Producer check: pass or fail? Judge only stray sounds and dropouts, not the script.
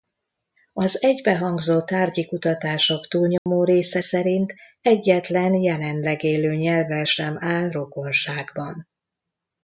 fail